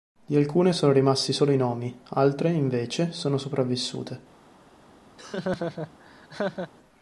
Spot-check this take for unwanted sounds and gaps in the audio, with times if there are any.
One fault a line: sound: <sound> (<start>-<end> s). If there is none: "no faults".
sound: laugh (5.2-6.7 s)